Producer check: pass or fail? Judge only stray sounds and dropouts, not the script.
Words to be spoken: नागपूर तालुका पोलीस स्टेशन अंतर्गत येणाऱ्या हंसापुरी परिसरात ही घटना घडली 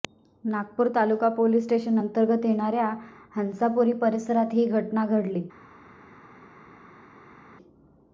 pass